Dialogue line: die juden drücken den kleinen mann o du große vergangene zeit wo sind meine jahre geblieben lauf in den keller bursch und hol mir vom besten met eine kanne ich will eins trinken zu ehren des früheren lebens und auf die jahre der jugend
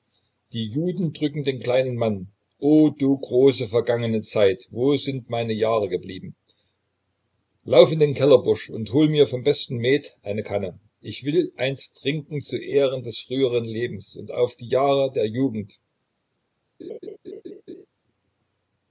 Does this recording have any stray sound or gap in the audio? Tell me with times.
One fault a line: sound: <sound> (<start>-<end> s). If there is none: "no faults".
sound: laugh (16.8-17.9 s)